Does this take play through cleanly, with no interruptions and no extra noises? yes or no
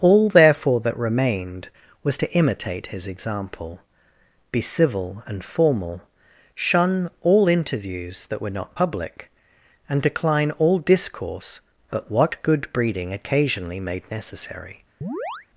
no